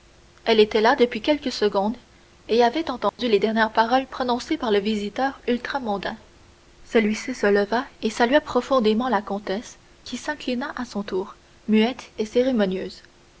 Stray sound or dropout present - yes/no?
yes